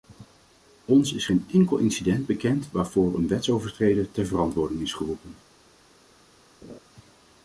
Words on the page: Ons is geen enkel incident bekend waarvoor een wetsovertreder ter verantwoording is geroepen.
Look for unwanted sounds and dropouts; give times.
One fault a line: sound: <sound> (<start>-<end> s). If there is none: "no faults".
sound: laugh (6.6-6.8 s)